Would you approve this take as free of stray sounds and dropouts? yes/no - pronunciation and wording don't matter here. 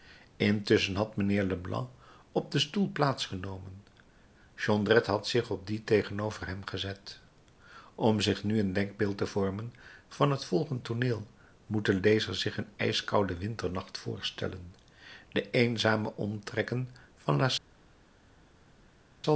yes